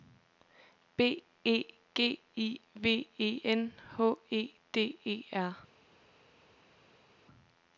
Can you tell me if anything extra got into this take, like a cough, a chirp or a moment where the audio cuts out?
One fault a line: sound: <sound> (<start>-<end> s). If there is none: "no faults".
no faults